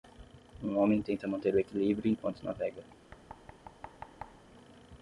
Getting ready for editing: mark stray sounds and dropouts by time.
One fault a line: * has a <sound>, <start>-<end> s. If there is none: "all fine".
* has a thud, 3.1-4.5 s